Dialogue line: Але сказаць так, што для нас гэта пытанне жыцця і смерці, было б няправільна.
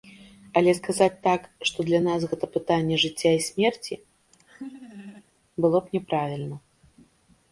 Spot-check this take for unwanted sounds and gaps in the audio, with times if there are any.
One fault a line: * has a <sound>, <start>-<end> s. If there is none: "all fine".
* has a laugh, 4.3-5.2 s